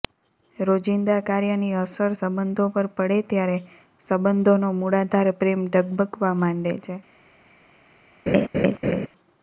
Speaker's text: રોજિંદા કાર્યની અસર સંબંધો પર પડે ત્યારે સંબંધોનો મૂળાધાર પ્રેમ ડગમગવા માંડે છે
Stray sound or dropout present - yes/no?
yes